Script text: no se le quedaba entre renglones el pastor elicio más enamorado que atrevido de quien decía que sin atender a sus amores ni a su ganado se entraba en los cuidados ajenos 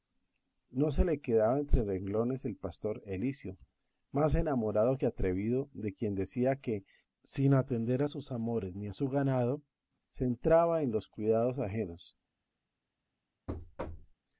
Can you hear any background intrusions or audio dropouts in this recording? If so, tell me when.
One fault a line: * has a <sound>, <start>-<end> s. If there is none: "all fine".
* has a thud, 13.5-14.2 s